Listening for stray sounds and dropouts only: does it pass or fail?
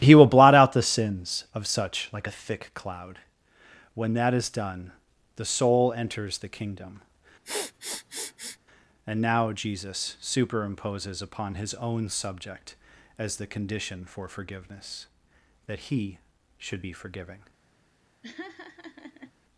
fail